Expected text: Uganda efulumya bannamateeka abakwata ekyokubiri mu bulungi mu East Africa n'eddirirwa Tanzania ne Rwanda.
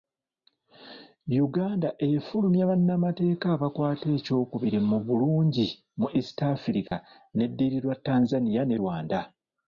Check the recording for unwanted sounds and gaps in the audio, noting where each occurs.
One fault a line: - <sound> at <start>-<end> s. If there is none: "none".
- dropout at 6.9-6.9 s